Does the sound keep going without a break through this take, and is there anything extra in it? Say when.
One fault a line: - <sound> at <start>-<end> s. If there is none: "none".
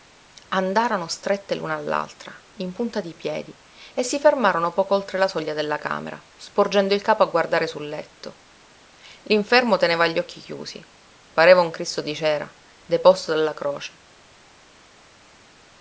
none